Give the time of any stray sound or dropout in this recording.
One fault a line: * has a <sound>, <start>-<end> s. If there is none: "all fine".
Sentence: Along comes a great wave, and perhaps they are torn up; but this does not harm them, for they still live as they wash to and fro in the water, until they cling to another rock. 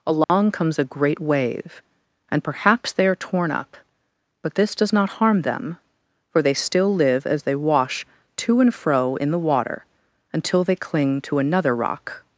* has a dropout, 0.2-0.3 s